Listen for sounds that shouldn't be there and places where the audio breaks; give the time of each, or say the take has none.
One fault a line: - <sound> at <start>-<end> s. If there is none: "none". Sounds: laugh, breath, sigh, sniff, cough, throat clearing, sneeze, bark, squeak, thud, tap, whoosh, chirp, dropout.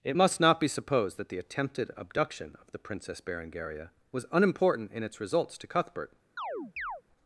- chirp at 6.4-7.0 s